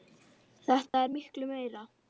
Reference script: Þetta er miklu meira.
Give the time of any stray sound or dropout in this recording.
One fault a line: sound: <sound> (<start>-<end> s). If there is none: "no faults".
sound: dropout (0.9-0.9 s)